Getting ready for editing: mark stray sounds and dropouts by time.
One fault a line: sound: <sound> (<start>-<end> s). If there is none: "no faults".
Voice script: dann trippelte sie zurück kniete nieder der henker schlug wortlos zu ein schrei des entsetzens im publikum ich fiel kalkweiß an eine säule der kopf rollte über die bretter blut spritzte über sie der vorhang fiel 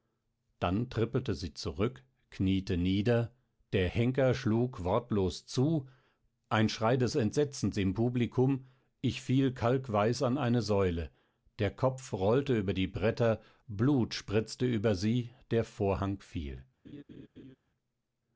sound: laugh (16.8-17.6 s)